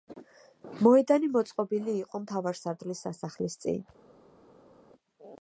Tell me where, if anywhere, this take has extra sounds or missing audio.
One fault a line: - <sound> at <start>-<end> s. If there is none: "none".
none